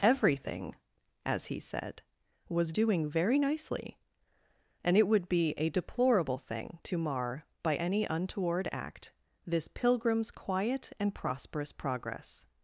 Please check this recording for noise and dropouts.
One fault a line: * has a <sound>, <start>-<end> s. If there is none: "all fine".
all fine